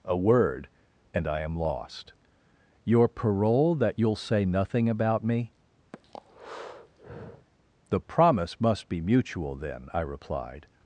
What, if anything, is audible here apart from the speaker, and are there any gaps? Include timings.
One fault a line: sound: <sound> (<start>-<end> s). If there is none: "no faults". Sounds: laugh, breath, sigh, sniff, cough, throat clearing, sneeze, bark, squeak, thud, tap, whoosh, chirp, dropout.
sound: breath (5.9-7.5 s)